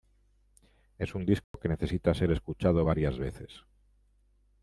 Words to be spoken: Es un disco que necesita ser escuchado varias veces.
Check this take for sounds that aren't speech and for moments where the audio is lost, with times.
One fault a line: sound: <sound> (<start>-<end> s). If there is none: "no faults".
sound: dropout (1.4-1.5 s)